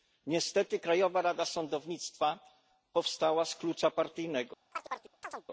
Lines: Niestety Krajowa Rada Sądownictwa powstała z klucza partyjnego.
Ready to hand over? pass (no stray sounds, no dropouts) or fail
fail